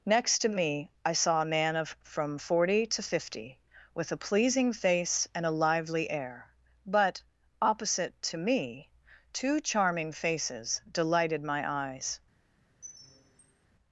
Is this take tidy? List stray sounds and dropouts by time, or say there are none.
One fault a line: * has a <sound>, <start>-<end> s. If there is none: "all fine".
* has a squeak, 12.8-13.7 s